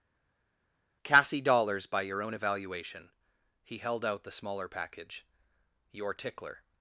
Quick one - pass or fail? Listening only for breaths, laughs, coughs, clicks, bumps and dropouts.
pass